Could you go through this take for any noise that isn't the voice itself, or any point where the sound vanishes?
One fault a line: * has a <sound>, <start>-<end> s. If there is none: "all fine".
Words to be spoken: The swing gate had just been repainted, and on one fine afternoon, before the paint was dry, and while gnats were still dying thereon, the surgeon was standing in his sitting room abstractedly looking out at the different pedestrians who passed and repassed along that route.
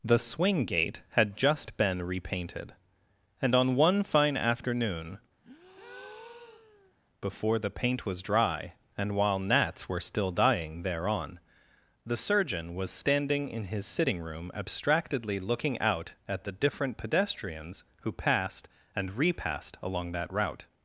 * has a breath, 5.4-6.9 s